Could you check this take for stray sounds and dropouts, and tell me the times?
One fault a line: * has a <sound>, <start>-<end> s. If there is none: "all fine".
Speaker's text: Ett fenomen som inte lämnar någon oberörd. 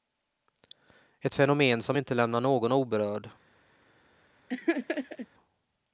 * has a laugh, 4.5-5.3 s